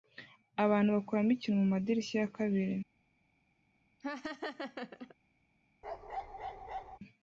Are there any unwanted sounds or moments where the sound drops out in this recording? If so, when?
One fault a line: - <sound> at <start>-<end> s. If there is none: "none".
- laugh at 4.0-5.1 s
- bark at 5.8-7.0 s